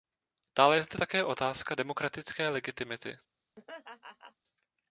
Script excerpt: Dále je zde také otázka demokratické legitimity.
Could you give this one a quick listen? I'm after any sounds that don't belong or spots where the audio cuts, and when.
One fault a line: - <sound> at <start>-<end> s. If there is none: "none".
- laugh at 3.6-4.4 s